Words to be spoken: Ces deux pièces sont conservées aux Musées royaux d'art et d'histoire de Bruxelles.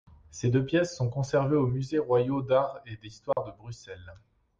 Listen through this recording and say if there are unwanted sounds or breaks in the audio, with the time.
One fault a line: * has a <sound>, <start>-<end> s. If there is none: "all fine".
* has a dropout, 3.3-3.4 s